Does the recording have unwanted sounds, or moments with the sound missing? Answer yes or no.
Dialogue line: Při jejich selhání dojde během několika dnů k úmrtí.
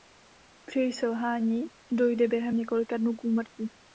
no